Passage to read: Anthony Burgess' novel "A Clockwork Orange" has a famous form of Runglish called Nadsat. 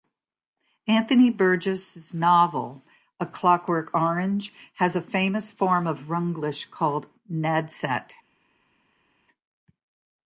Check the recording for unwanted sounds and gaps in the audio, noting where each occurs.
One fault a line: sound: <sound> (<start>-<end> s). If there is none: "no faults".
no faults